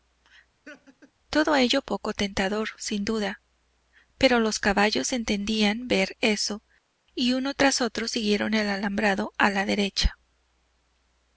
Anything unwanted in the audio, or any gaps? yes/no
yes